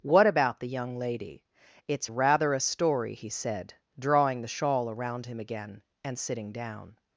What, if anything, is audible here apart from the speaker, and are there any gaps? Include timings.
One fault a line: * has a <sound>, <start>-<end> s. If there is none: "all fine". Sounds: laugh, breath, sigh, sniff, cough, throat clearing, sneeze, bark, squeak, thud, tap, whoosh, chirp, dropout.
all fine